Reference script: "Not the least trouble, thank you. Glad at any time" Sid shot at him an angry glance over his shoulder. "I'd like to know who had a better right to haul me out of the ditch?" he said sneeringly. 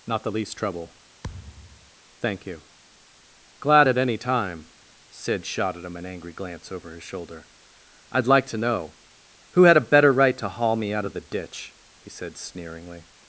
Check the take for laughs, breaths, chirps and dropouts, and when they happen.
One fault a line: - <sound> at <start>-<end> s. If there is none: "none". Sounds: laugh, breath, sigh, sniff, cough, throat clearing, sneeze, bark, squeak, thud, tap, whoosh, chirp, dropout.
- thud at 1.2-1.9 s